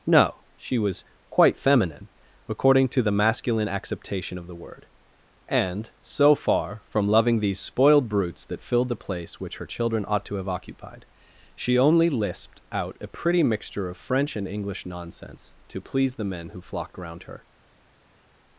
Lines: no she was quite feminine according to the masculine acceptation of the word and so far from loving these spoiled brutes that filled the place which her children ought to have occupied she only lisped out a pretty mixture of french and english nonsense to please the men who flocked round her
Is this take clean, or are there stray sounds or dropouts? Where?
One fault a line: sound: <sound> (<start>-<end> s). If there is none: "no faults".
no faults